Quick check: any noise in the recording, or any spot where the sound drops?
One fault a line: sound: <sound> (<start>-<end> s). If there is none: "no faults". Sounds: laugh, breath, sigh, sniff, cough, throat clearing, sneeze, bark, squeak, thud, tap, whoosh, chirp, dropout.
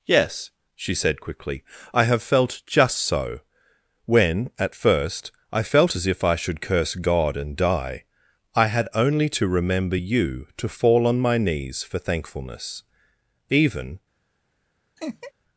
sound: laugh (15.0-15.3 s)